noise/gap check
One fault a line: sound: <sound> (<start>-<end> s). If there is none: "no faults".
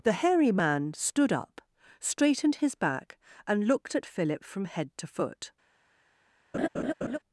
sound: laugh (6.5-7.2 s)